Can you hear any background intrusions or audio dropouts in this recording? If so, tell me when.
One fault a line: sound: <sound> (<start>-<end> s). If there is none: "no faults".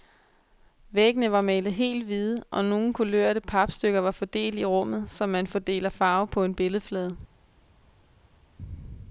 no faults